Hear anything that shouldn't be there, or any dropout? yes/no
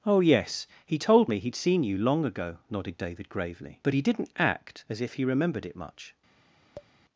yes